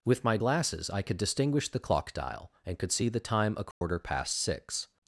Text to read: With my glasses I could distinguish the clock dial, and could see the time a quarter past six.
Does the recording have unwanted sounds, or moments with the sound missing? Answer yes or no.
yes